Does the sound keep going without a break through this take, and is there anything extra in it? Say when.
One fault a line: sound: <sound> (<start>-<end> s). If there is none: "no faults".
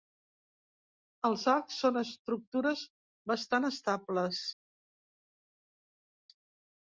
no faults